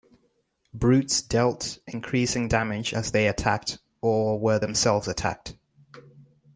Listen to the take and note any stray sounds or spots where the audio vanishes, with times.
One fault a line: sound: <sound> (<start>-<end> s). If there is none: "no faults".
no faults